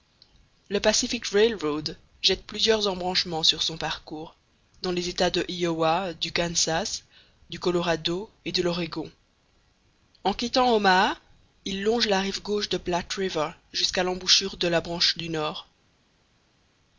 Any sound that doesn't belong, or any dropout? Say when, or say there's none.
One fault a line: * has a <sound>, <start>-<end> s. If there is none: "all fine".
all fine